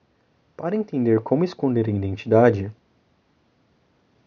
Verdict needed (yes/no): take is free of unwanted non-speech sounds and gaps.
yes